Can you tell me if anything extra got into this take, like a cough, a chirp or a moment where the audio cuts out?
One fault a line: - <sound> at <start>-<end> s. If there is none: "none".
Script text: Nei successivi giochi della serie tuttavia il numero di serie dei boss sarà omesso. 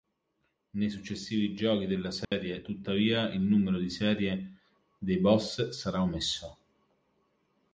- dropout at 2.2-2.3 s